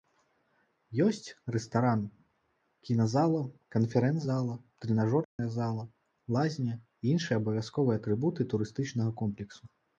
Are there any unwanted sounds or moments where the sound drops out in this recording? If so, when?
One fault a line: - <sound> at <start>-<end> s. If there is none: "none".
- dropout at 5.2-5.4 s